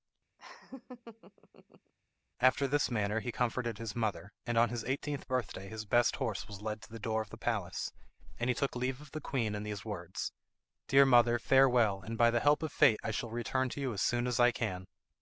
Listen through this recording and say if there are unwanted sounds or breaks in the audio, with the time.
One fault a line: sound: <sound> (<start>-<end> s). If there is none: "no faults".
sound: laugh (0.4-1.9 s)